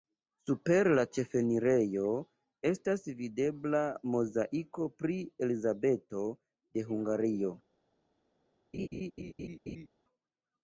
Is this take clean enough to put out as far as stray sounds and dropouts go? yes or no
no